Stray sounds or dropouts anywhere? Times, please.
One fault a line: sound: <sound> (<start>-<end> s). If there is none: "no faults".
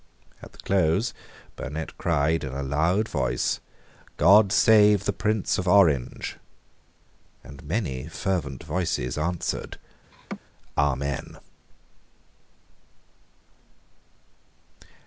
sound: laugh (10.1-10.4 s)